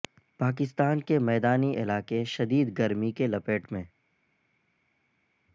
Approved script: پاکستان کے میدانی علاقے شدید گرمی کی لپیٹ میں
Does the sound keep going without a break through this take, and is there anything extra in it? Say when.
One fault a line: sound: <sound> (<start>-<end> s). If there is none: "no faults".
no faults